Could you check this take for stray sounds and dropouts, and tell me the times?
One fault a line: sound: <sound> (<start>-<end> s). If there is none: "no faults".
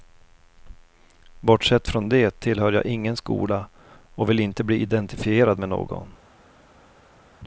no faults